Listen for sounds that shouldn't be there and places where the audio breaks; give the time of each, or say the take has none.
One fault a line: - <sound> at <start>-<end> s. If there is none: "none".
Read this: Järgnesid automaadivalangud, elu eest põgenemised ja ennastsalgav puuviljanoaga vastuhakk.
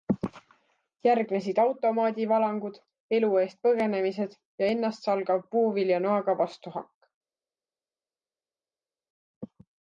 none